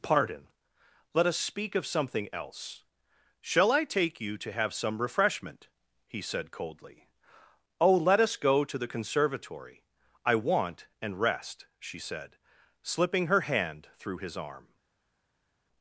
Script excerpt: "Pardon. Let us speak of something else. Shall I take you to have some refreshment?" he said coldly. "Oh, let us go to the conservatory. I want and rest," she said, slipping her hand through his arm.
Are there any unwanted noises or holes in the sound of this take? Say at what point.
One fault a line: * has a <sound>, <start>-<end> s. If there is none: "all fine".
all fine